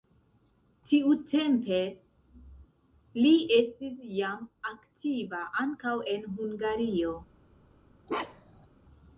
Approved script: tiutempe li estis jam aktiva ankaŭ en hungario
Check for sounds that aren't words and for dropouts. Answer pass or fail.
fail